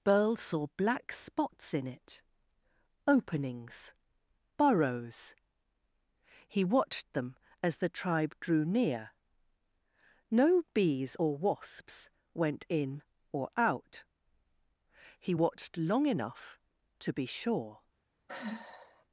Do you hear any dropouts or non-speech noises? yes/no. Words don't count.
yes